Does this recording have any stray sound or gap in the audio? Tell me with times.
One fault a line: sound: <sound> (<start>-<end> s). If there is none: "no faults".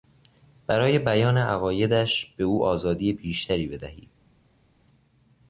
no faults